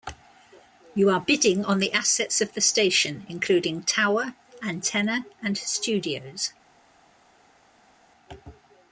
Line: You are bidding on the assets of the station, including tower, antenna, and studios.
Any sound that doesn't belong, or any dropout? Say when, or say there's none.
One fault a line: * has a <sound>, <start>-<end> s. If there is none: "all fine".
all fine